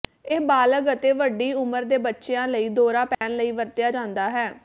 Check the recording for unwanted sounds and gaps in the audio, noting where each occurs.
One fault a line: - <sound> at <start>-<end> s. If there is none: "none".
- dropout at 3.1-3.2 s